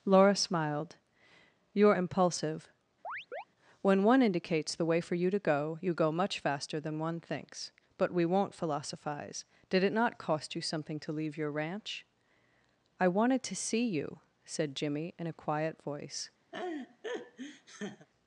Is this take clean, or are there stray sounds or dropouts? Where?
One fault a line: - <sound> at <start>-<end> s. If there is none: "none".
- chirp at 3.0-3.4 s
- laugh at 16.5-18.1 s